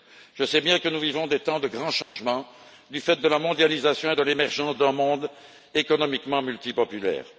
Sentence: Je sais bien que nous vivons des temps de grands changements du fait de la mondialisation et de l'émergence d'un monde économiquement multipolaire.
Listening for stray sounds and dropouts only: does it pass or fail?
fail